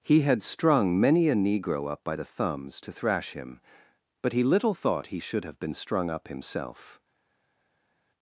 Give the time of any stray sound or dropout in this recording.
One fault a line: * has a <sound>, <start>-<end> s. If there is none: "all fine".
all fine